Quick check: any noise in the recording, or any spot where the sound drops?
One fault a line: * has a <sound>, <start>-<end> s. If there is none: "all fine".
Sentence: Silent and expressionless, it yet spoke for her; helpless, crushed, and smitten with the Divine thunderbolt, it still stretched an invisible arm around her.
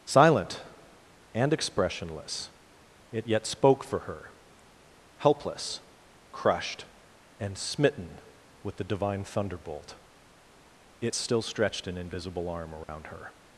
* has a dropout, 12.8-12.9 s